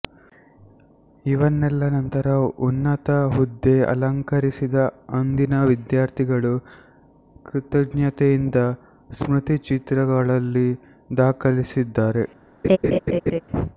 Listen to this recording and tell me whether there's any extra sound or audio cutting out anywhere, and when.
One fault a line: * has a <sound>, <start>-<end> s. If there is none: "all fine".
* has a laugh, 12.6-13.4 s